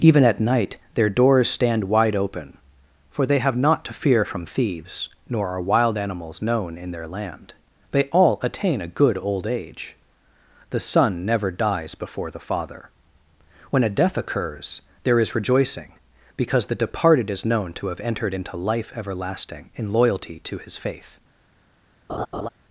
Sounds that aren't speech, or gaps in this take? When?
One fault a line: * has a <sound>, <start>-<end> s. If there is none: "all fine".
* has a laugh, 22.1-22.5 s